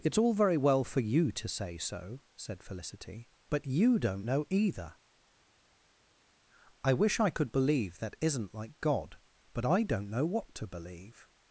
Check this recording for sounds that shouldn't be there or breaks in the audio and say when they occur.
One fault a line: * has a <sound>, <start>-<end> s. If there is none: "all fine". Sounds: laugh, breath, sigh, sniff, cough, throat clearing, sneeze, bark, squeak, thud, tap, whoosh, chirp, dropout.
all fine